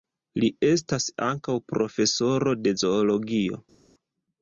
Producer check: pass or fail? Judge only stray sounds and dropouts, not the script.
pass